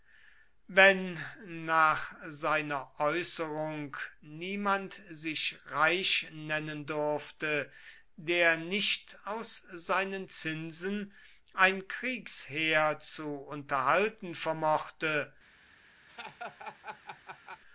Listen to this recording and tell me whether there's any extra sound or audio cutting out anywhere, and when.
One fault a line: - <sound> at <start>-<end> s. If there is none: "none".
- laugh at 16.1-17.6 s